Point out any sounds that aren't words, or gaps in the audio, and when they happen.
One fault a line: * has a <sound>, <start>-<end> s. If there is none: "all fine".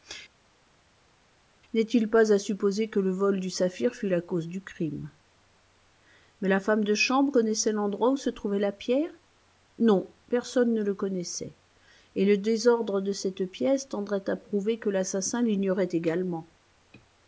all fine